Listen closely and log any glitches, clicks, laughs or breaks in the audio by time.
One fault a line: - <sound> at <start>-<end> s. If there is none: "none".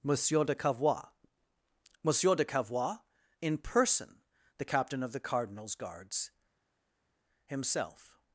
none